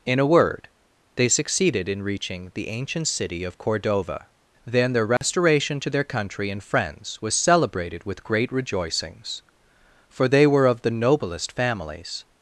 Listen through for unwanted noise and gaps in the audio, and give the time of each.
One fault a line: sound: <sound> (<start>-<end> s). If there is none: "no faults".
sound: dropout (5.2-5.2 s)